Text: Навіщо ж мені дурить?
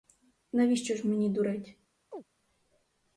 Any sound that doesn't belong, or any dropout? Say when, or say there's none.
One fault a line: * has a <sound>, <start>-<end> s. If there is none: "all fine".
* has a chirp, 2.1-2.2 s